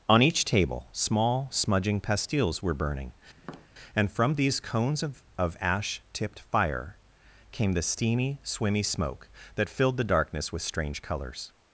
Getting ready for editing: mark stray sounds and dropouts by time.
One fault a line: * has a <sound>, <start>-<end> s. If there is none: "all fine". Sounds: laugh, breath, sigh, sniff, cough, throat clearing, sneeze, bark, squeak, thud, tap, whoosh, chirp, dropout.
* has a tap, 3.4-3.7 s